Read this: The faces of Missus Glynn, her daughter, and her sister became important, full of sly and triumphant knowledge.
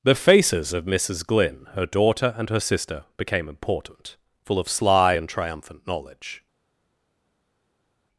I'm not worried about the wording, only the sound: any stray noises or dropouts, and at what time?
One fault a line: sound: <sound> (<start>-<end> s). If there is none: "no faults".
no faults